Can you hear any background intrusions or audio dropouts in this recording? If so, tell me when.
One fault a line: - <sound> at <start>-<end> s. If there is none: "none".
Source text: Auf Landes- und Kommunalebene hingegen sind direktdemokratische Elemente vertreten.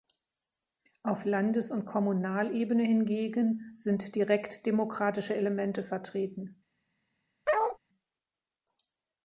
- bark at 7.5-7.8 s